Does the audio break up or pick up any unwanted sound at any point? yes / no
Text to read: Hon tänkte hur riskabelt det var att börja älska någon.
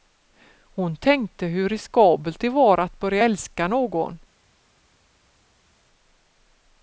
no